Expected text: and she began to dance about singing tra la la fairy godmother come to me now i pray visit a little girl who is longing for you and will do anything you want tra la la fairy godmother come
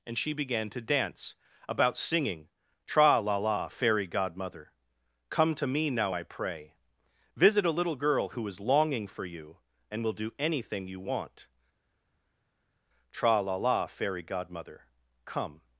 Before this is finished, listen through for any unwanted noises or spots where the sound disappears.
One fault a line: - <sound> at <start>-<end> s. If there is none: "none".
none